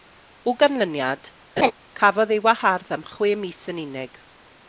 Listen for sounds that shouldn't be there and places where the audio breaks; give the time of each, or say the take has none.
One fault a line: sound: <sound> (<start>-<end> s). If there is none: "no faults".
sound: laugh (1.6-1.7 s)